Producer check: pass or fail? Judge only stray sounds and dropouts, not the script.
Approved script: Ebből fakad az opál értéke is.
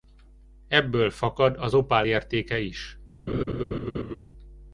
fail